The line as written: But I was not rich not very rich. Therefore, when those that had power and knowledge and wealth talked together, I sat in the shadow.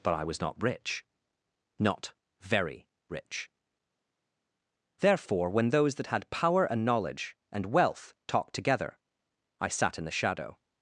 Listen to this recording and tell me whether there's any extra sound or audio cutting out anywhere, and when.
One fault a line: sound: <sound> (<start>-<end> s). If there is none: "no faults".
no faults